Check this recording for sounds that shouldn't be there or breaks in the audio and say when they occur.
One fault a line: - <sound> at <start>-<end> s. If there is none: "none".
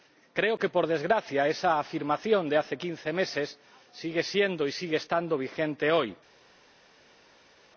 none